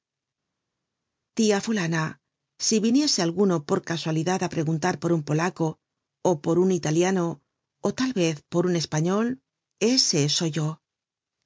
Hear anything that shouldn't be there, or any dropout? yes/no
no